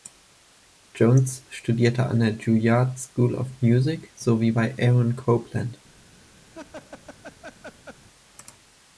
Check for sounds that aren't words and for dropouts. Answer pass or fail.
fail